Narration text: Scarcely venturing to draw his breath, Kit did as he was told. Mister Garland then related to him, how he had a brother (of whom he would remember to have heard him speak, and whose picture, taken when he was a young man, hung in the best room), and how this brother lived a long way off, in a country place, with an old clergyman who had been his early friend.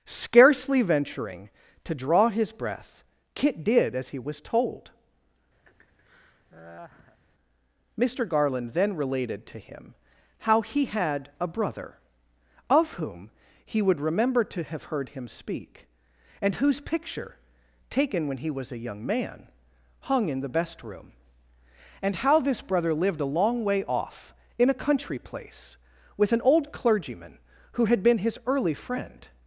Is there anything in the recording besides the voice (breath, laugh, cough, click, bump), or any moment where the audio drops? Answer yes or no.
yes